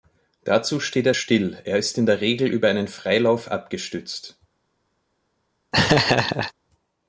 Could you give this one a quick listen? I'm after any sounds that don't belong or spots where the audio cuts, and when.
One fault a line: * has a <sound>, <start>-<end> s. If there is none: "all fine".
* has a laugh, 5.7-6.5 s